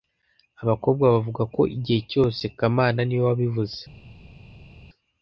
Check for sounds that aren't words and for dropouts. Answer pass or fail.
pass